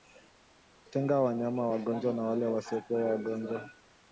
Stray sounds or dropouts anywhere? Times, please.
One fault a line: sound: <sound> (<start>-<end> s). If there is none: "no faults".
no faults